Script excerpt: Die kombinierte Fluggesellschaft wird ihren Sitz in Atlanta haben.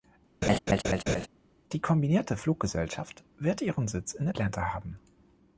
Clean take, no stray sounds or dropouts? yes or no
no